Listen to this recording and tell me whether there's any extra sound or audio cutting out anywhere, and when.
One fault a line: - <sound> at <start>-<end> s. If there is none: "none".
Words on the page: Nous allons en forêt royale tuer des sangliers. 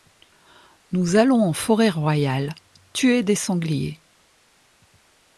none